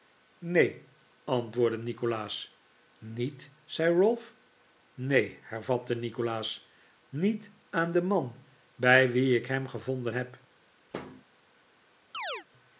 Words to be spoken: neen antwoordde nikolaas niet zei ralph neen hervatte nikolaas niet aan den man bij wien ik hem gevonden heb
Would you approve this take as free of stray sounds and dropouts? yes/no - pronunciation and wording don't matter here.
no